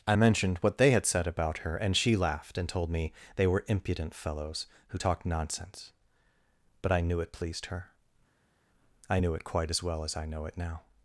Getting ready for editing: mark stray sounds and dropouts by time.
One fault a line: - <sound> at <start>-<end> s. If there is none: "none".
none